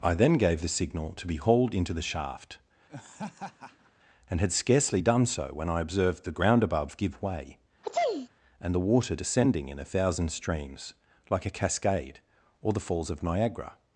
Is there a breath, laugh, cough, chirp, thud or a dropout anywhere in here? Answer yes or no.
yes